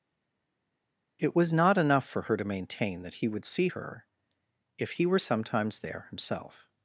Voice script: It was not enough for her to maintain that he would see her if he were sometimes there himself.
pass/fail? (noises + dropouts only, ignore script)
pass